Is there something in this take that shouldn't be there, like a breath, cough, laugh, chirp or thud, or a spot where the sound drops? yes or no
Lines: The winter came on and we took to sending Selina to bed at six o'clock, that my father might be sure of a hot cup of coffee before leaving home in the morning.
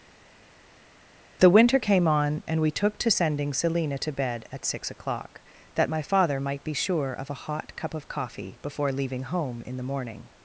no